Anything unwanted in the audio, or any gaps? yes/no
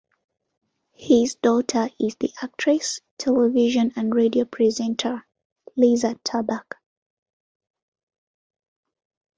no